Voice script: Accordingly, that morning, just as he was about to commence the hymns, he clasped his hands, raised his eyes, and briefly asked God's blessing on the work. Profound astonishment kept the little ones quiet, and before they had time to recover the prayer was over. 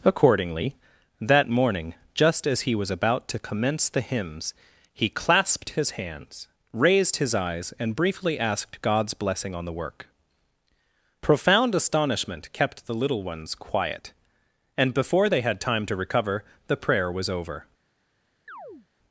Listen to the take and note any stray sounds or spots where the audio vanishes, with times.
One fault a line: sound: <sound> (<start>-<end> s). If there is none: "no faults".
sound: chirp (18.5-18.9 s)